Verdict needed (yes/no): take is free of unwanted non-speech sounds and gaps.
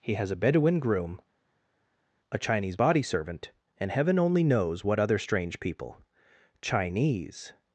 yes